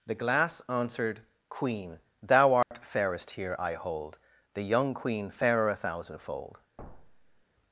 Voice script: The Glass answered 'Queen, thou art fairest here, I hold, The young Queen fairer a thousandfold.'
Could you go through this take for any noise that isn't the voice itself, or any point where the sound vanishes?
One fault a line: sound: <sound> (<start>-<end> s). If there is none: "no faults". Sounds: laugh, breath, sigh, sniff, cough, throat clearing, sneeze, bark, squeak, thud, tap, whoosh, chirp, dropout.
sound: dropout (2.6-2.7 s)
sound: thud (6.8-7.4 s)